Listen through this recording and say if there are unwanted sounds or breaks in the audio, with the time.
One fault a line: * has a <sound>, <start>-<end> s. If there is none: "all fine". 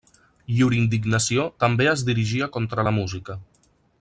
all fine